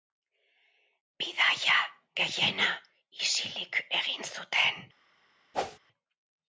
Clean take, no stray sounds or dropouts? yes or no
no